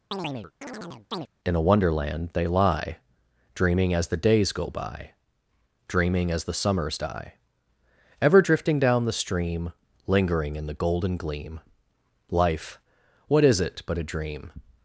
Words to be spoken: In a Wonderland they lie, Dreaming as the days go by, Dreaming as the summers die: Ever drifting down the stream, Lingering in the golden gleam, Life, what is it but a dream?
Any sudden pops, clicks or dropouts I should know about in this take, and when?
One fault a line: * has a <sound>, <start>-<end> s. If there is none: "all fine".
* has a chirp, 0.1-1.3 s